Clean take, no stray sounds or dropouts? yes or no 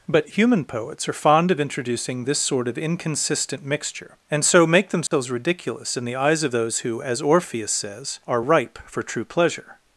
no